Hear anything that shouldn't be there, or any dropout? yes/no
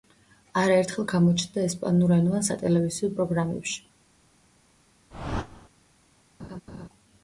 yes